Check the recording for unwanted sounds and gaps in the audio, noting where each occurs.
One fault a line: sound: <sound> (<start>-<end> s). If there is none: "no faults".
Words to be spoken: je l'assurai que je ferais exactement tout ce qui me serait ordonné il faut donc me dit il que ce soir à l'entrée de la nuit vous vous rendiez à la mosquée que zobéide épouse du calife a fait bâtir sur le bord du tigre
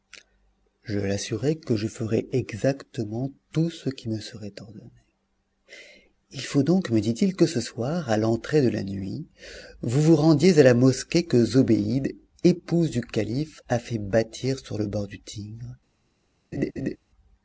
sound: laugh (16.5-17.0 s)